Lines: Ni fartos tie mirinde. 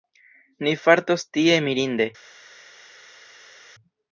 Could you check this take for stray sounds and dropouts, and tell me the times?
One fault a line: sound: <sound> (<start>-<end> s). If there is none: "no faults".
no faults